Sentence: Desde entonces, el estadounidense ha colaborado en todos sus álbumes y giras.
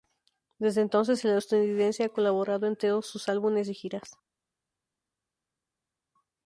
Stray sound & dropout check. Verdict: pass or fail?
pass